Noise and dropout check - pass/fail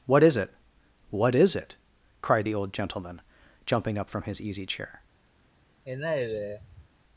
fail